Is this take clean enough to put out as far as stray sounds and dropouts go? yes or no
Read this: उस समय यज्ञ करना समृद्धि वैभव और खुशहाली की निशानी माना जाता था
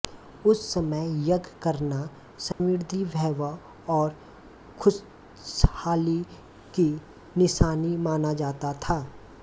no